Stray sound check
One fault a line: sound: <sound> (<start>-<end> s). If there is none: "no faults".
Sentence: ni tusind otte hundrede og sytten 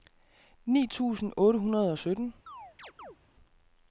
sound: chirp (2.5-3.2 s)